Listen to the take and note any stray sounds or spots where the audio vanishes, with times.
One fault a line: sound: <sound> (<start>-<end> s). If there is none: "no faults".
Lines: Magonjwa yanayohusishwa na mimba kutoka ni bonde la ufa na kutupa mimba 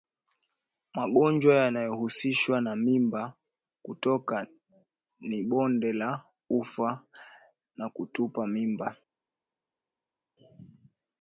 no faults